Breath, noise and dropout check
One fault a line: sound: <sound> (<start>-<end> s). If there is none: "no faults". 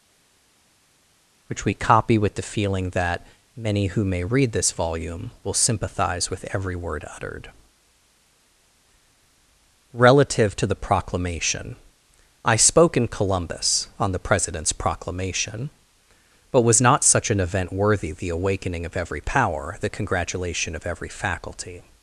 no faults